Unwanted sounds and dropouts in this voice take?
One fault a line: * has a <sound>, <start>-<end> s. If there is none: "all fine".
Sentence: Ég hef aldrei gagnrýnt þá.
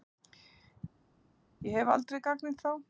all fine